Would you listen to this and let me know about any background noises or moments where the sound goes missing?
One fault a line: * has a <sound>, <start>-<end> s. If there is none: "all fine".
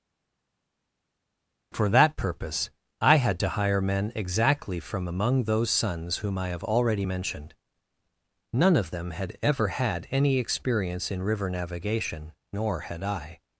all fine